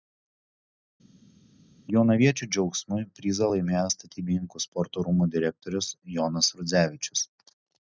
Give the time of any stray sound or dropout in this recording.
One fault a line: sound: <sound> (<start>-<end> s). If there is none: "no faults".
no faults